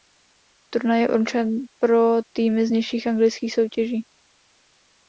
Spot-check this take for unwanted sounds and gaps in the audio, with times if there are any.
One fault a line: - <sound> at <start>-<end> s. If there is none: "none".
none